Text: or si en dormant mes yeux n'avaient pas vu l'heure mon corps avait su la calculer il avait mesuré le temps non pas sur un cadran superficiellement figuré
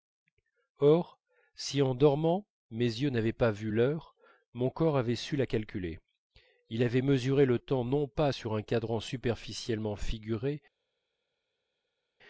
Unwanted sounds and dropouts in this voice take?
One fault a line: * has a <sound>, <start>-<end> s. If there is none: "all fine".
all fine